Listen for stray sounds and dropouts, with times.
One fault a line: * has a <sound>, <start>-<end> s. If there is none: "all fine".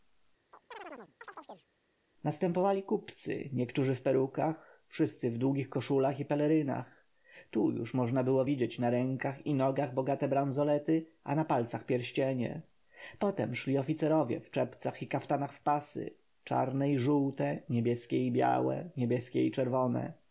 * has a chirp, 0.5-1.7 s